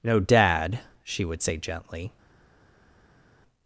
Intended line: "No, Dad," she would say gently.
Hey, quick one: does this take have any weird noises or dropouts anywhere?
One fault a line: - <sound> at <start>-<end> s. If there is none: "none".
none